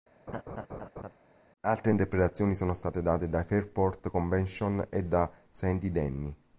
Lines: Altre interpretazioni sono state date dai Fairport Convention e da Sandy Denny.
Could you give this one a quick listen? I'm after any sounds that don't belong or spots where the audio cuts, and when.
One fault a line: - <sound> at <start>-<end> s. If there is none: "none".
- laugh at 0.3-1.1 s